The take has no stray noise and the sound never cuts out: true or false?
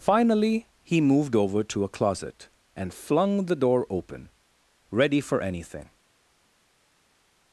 true